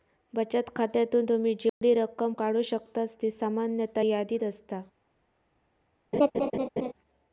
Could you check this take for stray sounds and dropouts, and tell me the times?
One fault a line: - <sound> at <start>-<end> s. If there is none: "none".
- dropout at 1.7-1.8 s
- laugh at 6.1-6.9 s